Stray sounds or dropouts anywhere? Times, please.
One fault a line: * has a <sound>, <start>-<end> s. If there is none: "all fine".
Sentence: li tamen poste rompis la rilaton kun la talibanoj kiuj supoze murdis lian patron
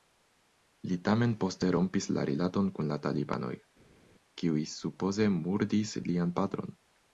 all fine